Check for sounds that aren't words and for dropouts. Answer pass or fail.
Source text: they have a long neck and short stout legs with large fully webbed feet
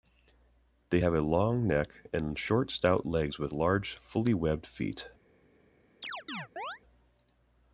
fail